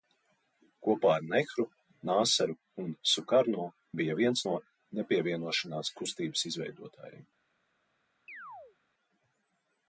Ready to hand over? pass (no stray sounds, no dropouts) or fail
fail